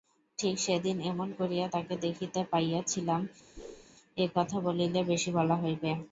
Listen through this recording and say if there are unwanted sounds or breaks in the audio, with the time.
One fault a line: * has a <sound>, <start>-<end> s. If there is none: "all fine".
* has a whoosh, 3.6-3.9 s